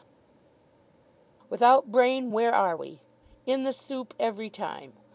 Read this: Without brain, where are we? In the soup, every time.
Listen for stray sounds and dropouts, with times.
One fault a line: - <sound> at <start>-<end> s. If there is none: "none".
none